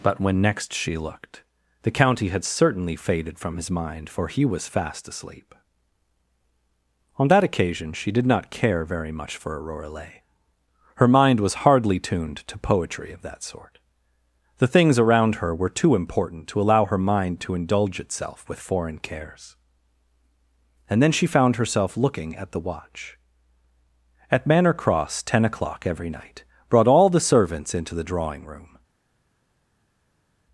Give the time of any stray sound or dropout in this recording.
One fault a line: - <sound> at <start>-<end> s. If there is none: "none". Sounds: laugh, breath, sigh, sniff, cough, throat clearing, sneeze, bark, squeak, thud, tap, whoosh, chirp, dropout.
none